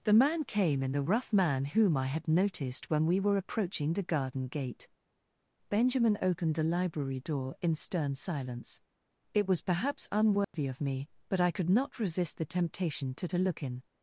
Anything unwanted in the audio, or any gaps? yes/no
yes